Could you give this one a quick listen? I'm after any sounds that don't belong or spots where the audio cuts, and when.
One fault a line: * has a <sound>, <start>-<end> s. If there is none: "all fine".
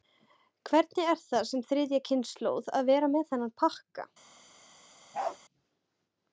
* has a bark, 5.1-5.4 s